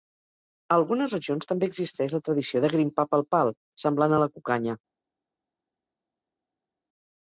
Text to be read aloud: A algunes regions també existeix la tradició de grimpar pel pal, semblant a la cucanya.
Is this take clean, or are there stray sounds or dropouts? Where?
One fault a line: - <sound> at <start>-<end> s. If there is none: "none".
none